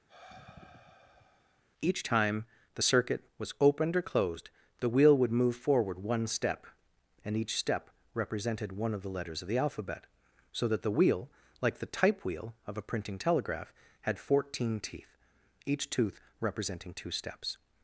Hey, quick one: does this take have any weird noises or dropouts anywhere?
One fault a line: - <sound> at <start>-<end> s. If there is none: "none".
- sigh at 0.1-1.6 s